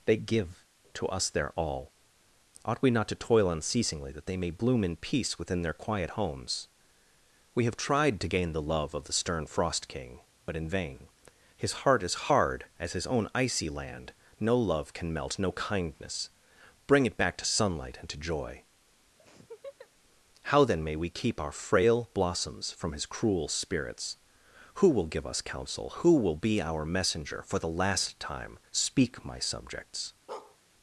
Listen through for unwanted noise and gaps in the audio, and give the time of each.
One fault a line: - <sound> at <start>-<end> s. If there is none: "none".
- laugh at 19.2-19.9 s
- bark at 30.3-30.6 s